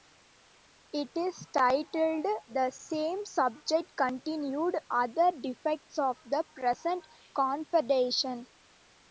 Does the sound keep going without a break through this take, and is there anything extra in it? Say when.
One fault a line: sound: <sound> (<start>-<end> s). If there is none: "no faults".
no faults